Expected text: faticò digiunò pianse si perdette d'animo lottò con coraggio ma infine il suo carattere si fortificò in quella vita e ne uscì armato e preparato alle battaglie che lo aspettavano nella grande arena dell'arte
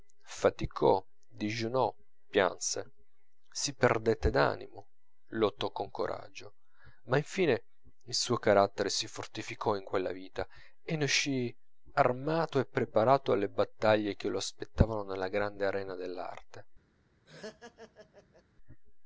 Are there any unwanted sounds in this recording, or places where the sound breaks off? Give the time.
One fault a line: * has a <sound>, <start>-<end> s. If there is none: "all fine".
* has a laugh, 17.2-18.4 s